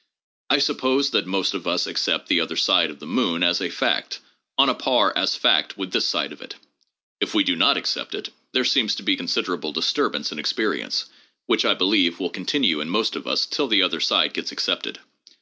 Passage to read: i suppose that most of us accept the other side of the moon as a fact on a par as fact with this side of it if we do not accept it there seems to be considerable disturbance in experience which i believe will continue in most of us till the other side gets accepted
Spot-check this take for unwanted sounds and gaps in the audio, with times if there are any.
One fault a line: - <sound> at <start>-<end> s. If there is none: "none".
none